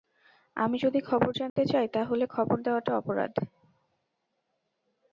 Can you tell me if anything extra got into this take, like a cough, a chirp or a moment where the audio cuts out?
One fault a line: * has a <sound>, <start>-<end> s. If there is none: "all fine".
* has a dropout, 1.5-1.6 s